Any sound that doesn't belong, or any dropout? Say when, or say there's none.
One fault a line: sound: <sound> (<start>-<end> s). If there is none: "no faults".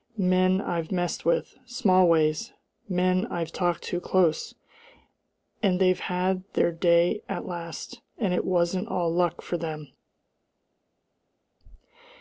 no faults